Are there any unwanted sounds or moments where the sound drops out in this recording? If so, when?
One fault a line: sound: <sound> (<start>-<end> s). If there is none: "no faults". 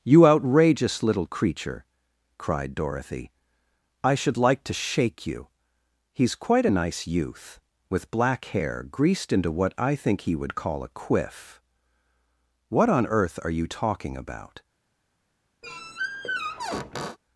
sound: squeak (15.6-17.2 s)